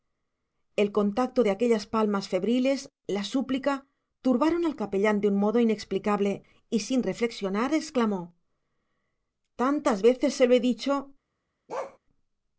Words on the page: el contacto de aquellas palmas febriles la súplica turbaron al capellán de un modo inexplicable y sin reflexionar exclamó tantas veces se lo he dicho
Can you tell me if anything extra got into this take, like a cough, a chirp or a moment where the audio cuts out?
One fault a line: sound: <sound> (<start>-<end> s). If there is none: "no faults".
sound: bark (11.7-12.0 s)